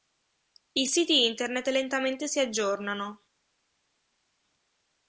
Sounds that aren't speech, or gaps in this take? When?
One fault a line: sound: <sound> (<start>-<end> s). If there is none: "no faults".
no faults